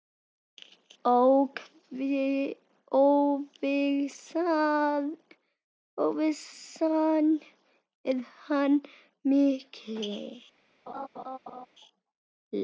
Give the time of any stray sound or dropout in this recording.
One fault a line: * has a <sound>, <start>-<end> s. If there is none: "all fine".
* has a laugh, 10.9-11.7 s